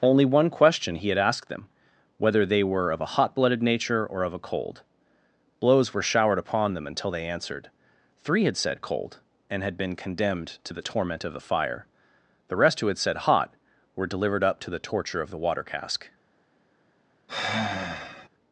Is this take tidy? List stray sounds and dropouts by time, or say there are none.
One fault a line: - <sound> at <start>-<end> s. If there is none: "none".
- sigh at 17.3-18.3 s